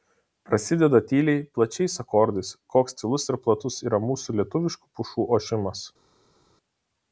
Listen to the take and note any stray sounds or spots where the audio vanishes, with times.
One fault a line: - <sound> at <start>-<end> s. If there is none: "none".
none